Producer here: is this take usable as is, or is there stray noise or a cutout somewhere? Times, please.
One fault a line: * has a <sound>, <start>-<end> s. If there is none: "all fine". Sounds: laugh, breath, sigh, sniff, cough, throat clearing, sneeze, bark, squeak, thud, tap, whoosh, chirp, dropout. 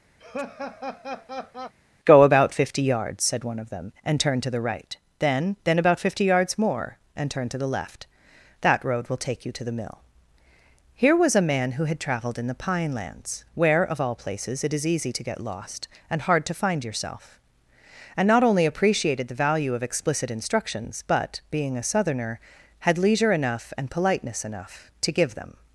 * has a laugh, 0.2-1.7 s